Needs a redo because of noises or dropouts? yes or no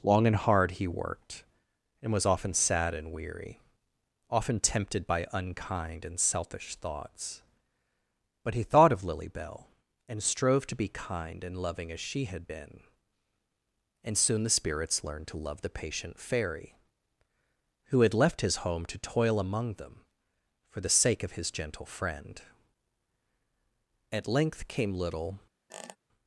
yes